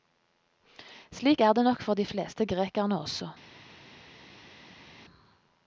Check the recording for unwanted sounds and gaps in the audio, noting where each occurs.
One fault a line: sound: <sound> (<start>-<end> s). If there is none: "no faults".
no faults